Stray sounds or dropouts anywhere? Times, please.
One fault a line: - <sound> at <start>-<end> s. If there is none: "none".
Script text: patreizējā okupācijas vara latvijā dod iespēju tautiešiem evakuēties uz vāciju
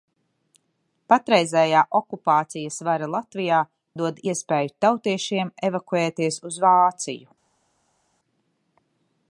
none